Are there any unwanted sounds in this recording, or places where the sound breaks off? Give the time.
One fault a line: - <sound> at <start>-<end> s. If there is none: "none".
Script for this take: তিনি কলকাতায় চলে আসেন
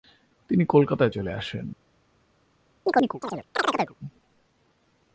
- chirp at 2.9-4.0 s